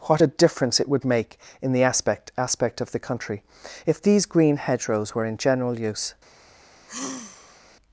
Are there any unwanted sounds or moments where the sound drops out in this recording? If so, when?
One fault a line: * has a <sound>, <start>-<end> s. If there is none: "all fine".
* has a sigh, 6.9-7.6 s